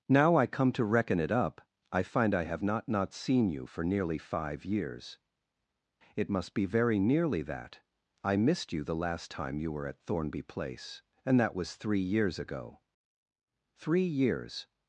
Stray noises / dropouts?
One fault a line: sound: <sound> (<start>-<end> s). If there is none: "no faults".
no faults